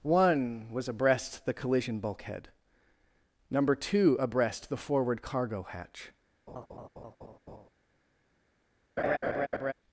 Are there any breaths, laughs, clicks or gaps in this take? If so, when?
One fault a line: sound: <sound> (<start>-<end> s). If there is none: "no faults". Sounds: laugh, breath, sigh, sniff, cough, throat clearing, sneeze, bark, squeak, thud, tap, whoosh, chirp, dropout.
sound: laugh (6.5-7.7 s)
sound: laugh (9.0-9.7 s)